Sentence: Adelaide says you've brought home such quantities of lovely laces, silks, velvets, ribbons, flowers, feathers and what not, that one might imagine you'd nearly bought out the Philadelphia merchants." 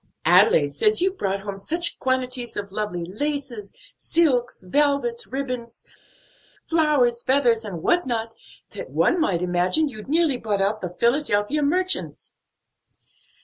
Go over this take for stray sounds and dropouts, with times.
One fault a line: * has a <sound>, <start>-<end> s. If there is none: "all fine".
all fine